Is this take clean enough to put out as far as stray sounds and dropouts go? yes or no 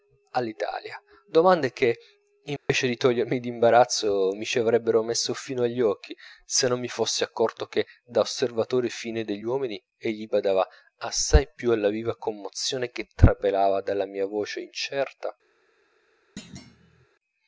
no